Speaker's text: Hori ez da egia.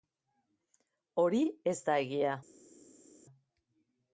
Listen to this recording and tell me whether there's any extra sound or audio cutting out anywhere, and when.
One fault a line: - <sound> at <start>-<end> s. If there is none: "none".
none